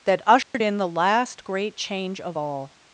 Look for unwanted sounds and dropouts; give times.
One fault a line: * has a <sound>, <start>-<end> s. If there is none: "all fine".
* has a dropout, 0.4-0.5 s